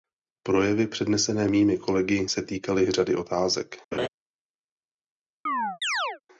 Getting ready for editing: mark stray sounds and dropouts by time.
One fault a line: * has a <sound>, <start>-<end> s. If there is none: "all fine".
* has a laugh, 3.9-4.1 s
* has a chirp, 5.5-6.2 s